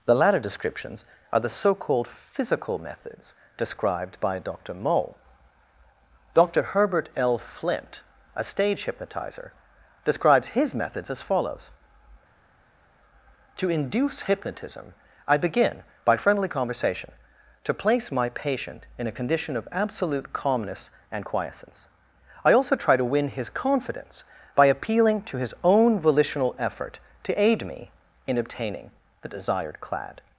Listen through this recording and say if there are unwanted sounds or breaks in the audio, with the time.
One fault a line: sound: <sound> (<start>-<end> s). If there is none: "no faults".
no faults